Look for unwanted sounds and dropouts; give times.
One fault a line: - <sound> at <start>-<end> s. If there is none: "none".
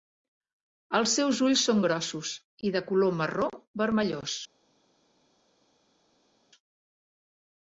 none